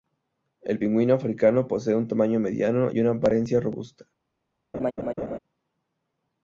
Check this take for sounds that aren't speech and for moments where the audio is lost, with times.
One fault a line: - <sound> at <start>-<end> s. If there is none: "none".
- laugh at 4.7-5.4 s